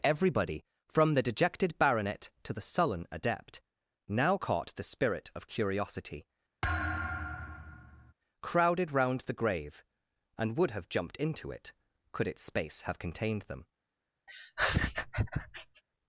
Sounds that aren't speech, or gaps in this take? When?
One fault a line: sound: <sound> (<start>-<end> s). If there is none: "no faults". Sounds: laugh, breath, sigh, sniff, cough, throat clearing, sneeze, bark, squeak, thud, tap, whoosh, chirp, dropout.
sound: thud (6.6-8.1 s)
sound: laugh (14.3-15.8 s)